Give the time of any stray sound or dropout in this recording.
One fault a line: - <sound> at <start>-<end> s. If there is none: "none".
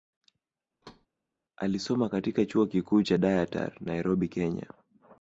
- thud at 0.8-1.1 s